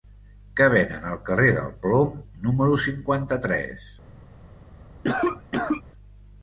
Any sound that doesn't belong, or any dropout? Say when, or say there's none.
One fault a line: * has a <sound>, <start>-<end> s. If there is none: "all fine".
* has a cough, 5.0-5.8 s